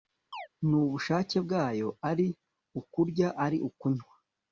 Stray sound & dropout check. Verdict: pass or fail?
fail